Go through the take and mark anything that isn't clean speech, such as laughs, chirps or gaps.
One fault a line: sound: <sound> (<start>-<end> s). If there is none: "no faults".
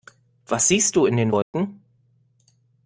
sound: dropout (1.4-1.5 s)